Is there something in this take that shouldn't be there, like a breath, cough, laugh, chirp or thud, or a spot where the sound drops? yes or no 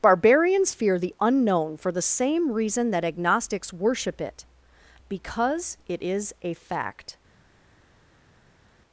no